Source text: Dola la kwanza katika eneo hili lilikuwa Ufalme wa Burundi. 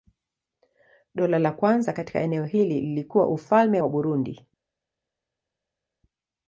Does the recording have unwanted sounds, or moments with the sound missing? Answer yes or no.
no